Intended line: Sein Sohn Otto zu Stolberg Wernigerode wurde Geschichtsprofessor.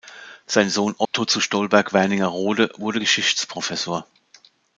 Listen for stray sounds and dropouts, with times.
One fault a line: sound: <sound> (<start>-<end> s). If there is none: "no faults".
sound: dropout (1.1-1.1 s)